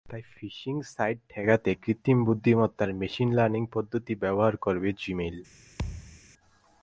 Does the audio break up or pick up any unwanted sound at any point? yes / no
yes